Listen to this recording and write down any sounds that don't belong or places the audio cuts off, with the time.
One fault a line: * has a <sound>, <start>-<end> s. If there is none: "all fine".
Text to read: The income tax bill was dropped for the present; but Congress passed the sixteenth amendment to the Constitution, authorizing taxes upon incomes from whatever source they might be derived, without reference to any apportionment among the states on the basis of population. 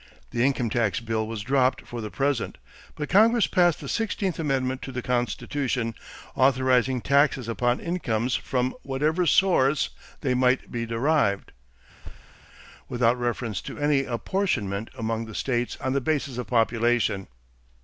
* has a thud, 12.0-12.4 s